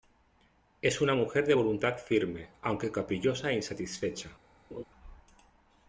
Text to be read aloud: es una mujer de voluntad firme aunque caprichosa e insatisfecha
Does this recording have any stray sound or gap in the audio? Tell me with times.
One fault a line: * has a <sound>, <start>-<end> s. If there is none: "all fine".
* has a laugh, 4.7-4.8 s